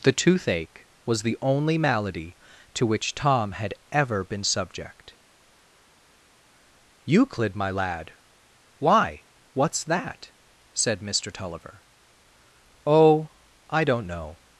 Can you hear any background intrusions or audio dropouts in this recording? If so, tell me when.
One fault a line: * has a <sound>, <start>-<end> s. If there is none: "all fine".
all fine